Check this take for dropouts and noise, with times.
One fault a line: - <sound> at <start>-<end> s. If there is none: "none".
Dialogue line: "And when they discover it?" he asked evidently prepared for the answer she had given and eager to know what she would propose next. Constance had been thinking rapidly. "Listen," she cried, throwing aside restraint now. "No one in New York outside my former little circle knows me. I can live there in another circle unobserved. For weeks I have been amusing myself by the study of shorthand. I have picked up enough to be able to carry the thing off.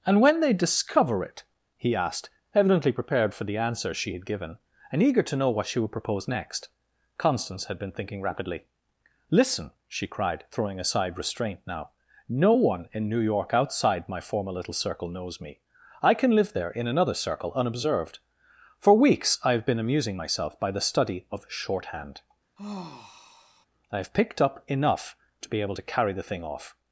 - sigh at 22.6-23.7 s